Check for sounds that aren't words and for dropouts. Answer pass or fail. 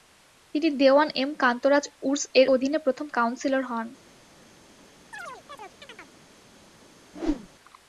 fail